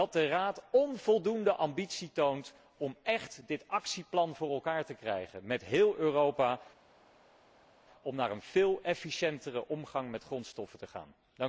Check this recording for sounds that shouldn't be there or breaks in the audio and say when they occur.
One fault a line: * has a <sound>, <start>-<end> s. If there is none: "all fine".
all fine